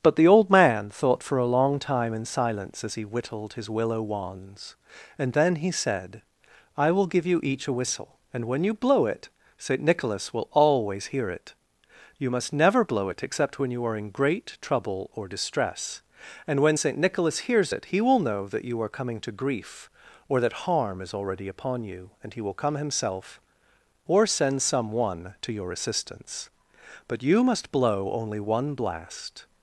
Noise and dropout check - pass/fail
pass